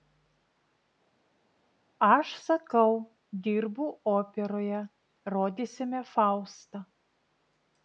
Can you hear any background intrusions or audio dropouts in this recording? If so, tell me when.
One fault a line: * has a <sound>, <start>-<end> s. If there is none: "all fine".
all fine